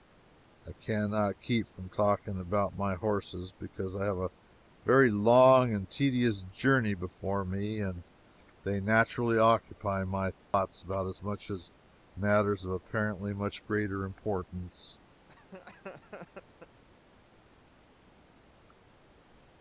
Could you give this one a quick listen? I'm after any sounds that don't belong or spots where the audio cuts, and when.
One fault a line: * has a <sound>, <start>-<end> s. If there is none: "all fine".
* has a dropout, 10.4-10.5 s
* has a laugh, 15.3-16.8 s